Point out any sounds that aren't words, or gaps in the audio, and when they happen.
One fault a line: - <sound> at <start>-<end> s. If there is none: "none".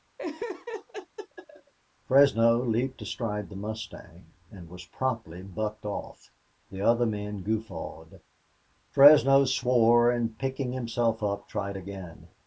- laugh at 0.2-1.7 s